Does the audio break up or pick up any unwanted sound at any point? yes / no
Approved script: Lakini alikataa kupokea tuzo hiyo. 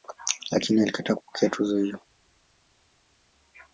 no